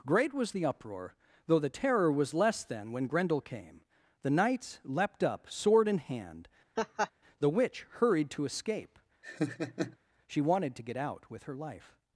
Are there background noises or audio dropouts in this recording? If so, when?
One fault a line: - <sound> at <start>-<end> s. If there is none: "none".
- laugh at 6.8-7.1 s
- laugh at 9.2-10.0 s